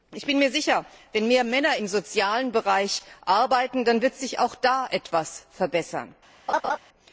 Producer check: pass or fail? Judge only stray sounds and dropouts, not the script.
fail